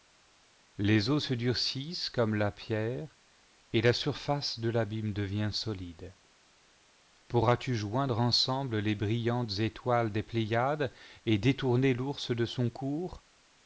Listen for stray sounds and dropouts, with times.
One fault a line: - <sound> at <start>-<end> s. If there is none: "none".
none